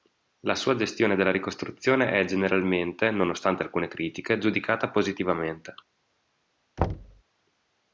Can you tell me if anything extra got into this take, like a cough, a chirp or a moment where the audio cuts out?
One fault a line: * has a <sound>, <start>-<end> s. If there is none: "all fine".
* has a thud, 6.8-7.2 s